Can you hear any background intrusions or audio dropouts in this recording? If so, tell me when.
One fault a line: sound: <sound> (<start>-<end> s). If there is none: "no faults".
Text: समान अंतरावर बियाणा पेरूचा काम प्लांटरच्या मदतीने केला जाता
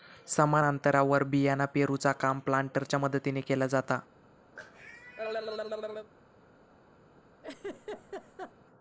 sound: cough (4.6-6.1 s)
sound: laugh (7.4-8.5 s)